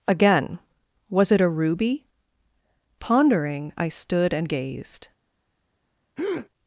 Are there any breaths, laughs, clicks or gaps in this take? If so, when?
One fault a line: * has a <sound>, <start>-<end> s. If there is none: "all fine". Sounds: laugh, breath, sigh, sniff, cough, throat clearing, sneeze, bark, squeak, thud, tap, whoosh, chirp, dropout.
* has a breath, 6.2-6.5 s